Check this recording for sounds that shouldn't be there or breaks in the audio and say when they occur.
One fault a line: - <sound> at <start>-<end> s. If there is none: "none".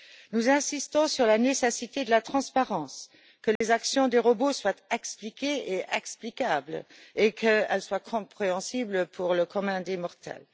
- dropout at 3.6-3.6 s